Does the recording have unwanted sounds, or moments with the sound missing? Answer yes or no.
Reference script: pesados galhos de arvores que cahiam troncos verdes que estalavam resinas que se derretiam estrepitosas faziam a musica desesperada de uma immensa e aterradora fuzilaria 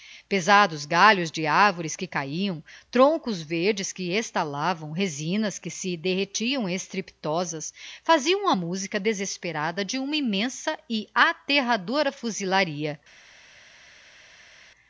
no